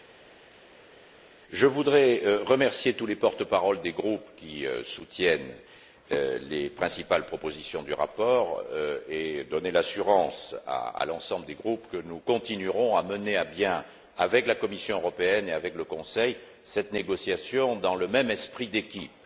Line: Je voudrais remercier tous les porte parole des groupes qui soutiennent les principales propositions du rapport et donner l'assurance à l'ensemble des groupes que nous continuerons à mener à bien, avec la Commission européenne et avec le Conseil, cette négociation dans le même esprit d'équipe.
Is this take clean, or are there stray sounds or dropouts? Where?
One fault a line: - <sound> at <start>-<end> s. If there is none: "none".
none